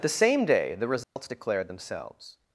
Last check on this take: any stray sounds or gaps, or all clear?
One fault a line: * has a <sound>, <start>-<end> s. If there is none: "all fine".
* has a dropout, 1.0-1.2 s